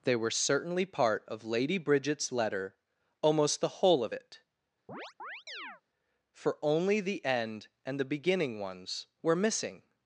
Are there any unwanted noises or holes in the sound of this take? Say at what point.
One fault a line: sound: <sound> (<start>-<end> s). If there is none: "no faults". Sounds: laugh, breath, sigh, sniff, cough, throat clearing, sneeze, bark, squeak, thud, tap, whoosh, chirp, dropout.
sound: chirp (4.9-5.8 s)